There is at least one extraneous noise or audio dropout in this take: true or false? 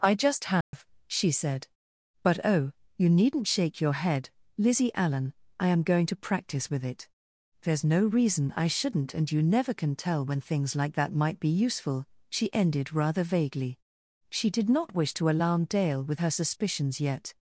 true